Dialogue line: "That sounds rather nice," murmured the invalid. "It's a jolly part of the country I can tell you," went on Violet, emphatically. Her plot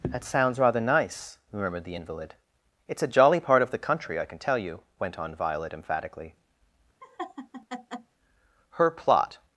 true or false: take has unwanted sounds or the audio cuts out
true